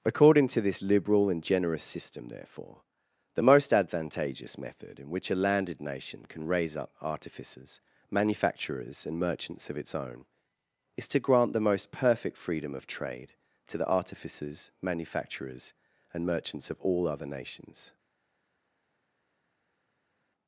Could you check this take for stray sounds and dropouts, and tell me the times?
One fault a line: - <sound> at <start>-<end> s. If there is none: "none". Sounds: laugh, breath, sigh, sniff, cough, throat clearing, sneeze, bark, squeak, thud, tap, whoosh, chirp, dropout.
none